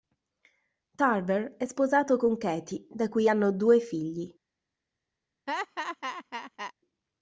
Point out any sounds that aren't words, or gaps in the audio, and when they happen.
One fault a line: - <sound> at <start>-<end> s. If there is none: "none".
- laugh at 5.5-6.7 s